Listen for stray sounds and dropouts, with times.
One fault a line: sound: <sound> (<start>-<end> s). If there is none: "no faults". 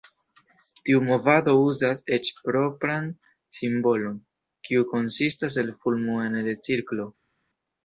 no faults